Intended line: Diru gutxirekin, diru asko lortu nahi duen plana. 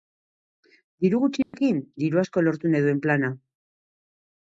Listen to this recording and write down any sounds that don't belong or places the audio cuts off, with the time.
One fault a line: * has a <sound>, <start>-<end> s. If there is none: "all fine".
* has a dropout, 1.4-1.5 s